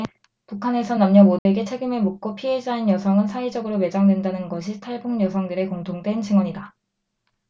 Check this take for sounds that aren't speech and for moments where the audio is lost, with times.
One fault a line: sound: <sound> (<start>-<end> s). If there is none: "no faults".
sound: dropout (1.4-1.5 s)